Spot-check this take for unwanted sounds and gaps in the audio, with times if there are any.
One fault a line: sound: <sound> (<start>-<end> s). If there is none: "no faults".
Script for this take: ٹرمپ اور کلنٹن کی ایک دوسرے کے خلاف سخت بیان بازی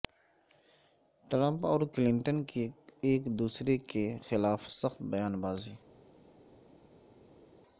no faults